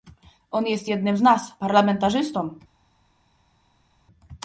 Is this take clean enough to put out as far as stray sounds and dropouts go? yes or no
yes